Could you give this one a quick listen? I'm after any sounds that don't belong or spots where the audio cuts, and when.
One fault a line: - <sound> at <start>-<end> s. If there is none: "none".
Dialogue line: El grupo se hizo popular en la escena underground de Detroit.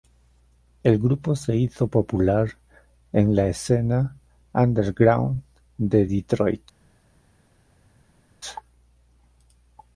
none